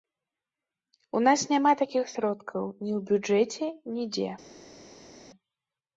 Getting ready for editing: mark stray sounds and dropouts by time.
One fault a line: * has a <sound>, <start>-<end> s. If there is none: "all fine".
all fine